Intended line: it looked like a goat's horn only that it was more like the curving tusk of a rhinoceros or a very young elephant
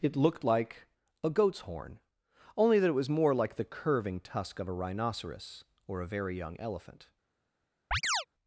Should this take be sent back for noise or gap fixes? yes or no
yes